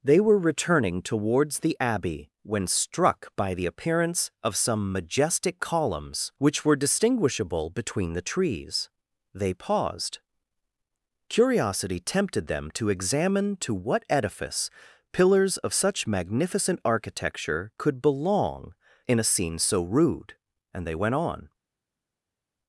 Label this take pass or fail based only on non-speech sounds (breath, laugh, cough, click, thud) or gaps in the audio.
pass